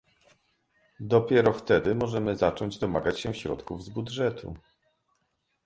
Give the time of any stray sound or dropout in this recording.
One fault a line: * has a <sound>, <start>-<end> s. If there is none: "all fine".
all fine